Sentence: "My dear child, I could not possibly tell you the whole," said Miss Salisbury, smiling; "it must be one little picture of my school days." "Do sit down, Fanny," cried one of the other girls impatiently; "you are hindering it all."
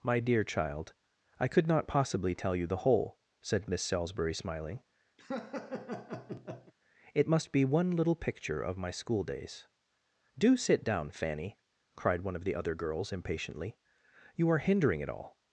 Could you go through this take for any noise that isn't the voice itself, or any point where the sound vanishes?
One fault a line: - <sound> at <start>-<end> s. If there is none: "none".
- laugh at 5.2-6.7 s